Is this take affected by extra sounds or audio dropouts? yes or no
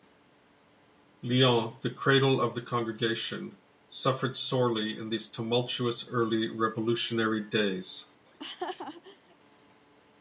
yes